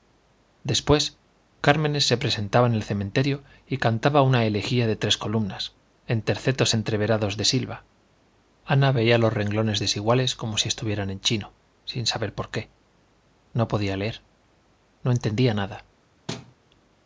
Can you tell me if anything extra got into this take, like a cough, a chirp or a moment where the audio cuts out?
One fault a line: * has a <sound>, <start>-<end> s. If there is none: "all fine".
* has a thud, 16.3-16.5 s